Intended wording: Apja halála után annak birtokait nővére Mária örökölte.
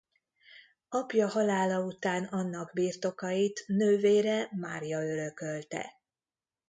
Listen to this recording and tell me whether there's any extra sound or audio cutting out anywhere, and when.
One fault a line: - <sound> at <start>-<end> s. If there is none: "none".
none